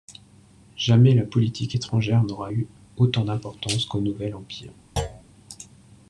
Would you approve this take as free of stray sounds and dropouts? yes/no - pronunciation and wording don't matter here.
no